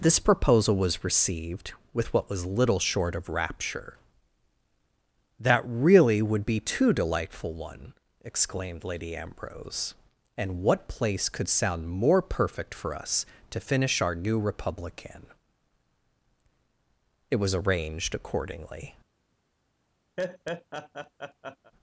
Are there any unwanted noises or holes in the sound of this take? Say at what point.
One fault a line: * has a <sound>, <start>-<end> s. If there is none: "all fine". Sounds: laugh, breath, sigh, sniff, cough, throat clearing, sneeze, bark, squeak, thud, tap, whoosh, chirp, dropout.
* has a laugh, 20.2-21.7 s